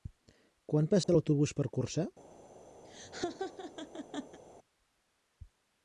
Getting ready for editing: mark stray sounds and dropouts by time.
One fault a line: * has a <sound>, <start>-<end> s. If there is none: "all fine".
* has a dropout, 1.0-1.1 s
* has a laugh, 2.8-4.4 s